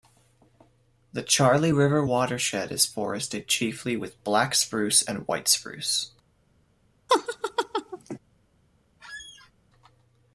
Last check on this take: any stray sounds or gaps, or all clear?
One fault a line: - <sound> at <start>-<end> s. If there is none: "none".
- laugh at 7.1-8.2 s
- squeak at 9.0-9.5 s